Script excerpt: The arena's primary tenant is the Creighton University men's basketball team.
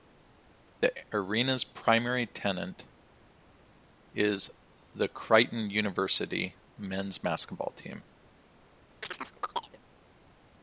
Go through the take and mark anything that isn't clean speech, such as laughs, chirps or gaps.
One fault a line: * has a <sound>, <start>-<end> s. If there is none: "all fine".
* has a chirp, 9.0-9.8 s